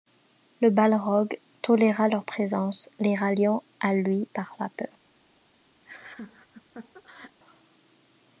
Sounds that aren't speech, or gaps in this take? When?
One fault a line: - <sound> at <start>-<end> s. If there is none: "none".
- laugh at 5.8-7.4 s